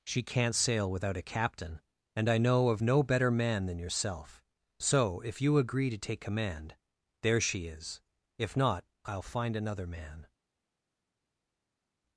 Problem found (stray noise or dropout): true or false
false